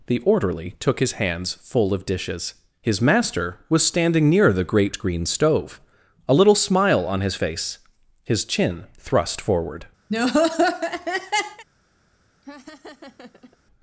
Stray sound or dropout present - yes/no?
yes